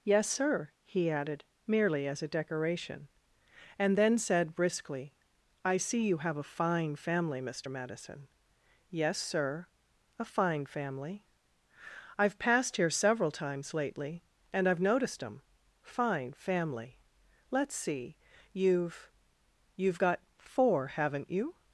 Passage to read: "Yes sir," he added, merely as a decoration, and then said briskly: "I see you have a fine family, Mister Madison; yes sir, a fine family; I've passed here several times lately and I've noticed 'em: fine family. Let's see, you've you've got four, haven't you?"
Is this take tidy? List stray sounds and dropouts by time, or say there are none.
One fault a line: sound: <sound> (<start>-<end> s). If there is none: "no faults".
no faults